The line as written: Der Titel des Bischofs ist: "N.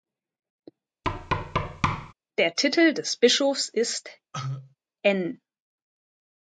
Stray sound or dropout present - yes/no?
yes